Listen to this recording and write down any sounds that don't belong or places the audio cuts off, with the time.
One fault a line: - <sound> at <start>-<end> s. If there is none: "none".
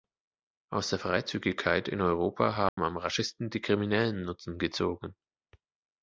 - dropout at 2.7-2.8 s